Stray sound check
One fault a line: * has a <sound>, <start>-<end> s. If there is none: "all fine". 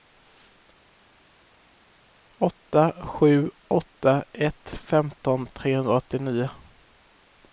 all fine